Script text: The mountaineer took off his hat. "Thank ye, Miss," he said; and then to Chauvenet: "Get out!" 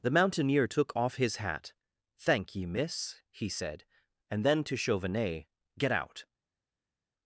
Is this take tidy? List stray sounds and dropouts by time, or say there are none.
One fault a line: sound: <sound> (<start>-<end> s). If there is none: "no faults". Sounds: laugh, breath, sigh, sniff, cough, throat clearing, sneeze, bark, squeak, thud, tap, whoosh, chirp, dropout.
no faults